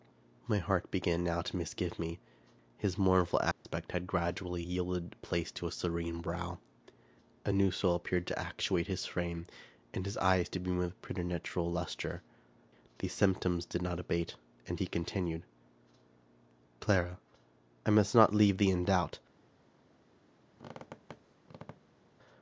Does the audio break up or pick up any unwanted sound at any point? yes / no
yes